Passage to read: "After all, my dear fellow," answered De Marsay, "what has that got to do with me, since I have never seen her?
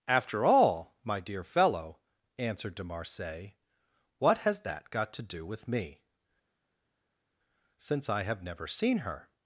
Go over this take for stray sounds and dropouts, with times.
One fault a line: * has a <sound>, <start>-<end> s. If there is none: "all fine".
all fine